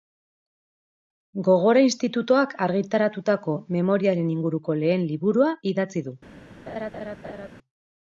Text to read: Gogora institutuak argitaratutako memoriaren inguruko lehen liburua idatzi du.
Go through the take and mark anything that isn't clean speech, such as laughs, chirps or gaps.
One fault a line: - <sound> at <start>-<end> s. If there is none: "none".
- laugh at 6.7-7.5 s